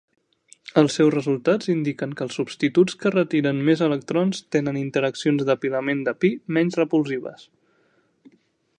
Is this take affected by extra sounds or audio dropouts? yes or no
no